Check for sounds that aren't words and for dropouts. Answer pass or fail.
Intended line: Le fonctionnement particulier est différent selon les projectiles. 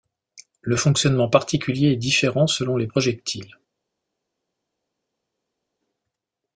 pass